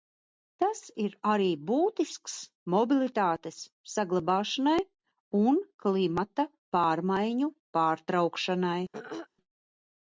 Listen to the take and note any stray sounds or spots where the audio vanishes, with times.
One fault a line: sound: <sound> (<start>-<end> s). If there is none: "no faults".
sound: throat clearing (8.9-9.3 s)